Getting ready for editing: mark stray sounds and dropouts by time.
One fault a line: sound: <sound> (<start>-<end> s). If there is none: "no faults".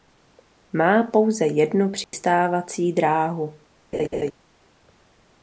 sound: dropout (2.0-2.1 s)
sound: laugh (3.9-4.3 s)